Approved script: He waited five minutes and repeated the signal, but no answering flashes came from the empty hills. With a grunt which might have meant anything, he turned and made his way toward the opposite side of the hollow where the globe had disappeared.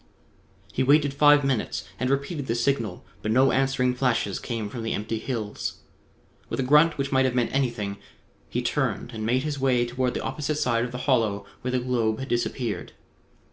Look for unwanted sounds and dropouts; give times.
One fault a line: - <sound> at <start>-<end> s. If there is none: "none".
none